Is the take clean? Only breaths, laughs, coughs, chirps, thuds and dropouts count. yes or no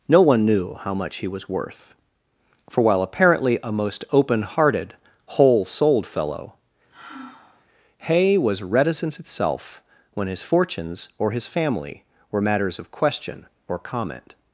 no